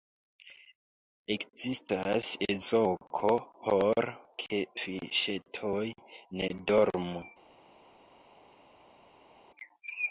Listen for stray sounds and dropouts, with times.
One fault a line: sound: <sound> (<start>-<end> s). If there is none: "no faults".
no faults